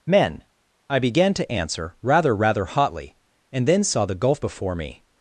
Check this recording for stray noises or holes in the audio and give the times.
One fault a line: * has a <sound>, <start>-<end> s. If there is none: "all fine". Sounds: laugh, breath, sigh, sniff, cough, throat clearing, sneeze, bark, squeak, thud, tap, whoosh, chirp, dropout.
all fine